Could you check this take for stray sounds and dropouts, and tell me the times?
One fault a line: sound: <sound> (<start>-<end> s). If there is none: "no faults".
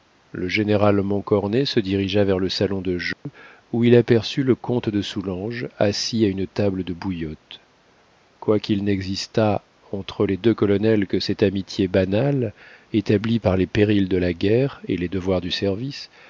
sound: dropout (3.1-3.3 s)